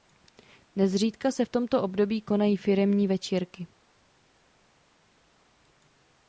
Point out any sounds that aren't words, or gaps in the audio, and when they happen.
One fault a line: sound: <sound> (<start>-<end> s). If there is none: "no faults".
no faults